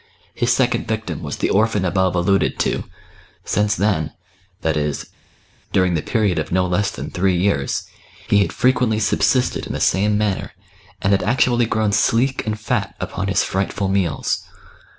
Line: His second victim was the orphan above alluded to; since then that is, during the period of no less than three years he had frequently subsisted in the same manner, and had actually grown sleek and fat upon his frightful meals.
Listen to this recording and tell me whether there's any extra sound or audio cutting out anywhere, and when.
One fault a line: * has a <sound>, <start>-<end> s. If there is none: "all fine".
all fine